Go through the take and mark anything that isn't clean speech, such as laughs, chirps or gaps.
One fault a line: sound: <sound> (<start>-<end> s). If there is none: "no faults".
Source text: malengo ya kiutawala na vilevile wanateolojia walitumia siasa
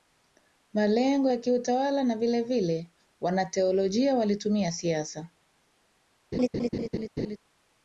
sound: laugh (6.3-7.4 s)